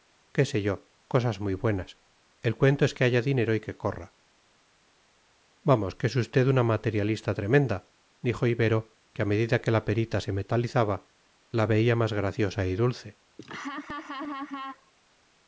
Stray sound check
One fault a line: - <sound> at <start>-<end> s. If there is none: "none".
- laugh at 13.4-14.9 s